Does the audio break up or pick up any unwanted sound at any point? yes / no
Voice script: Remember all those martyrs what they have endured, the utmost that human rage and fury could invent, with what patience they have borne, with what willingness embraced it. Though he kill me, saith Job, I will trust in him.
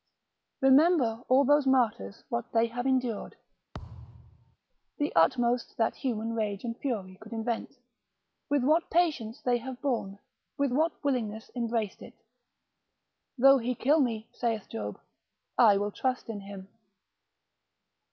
yes